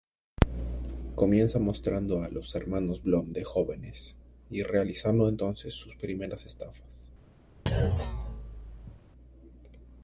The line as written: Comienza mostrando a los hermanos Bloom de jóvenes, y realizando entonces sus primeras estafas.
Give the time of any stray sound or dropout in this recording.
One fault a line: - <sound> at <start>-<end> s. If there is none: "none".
- thud at 7.7-9.0 s